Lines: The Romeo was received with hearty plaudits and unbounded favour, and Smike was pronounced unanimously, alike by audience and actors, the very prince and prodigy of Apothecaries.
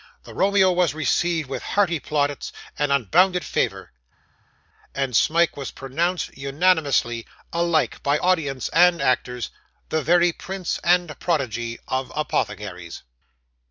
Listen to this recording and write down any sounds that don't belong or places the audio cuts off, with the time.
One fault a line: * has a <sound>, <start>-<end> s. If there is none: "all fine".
all fine